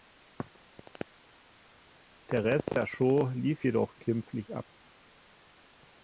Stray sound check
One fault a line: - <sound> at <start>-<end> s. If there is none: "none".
none